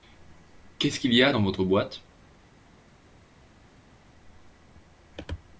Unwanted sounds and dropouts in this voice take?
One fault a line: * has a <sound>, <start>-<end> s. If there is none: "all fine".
all fine